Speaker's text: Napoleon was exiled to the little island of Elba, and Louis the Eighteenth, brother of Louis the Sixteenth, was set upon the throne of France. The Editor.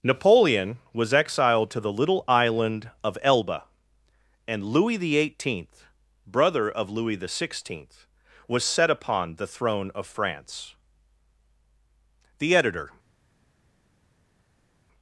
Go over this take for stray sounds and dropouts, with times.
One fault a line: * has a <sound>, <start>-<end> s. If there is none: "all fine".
all fine